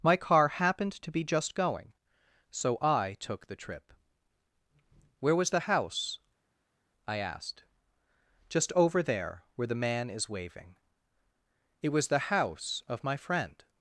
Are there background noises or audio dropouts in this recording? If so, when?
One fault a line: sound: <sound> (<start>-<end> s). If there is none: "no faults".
no faults